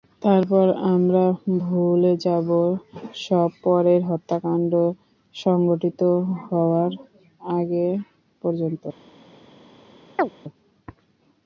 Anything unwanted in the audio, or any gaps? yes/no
yes